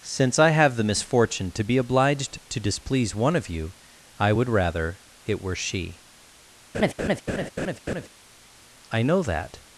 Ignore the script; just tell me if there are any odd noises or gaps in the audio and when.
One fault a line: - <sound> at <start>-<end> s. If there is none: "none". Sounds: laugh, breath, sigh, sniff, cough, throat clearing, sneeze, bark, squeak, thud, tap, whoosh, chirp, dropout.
- laugh at 6.7-8.1 s